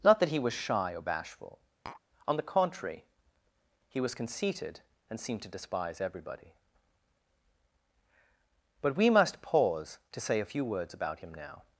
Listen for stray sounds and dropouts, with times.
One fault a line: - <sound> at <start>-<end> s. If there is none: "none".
- tap at 1.9-2.0 s